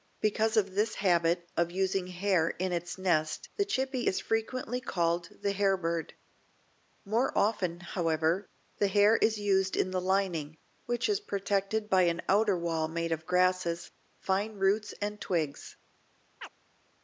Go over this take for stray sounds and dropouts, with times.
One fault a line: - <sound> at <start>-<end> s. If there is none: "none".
- chirp at 16.4-16.5 s